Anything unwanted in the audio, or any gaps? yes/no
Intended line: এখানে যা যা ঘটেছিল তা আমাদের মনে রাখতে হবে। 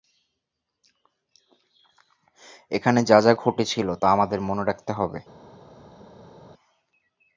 no